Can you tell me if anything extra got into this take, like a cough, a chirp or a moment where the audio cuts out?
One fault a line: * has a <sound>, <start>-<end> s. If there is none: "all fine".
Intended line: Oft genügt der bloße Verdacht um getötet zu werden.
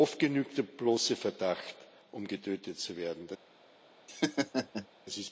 * has a laugh, 4.1-4.9 s